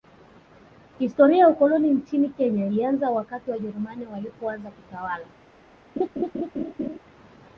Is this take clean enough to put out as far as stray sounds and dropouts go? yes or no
no